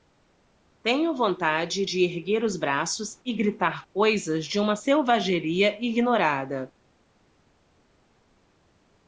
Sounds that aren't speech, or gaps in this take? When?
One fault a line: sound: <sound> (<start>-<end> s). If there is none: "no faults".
no faults